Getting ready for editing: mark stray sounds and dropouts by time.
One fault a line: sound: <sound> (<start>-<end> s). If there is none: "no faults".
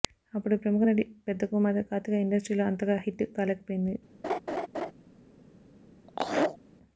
sound: laugh (4.2-4.9 s)
sound: laugh (6.1-6.6 s)